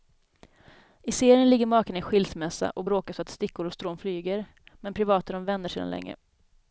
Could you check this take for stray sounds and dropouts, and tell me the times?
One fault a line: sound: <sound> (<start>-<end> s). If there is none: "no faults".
no faults